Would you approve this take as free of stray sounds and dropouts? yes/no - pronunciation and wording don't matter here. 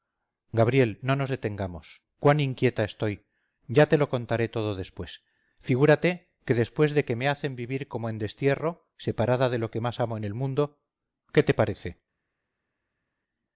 yes